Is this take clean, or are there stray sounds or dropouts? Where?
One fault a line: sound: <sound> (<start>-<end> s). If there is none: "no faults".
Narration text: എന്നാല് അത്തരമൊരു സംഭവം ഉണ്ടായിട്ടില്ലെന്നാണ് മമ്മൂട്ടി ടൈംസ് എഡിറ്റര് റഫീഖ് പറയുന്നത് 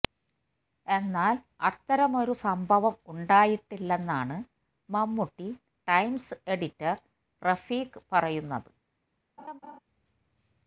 sound: laugh (9.4-9.8 s)